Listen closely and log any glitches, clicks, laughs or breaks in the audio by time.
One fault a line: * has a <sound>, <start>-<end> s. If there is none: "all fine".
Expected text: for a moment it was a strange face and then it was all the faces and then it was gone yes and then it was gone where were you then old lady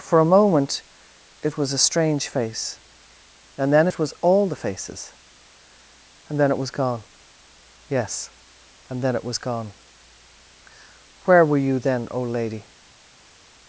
all fine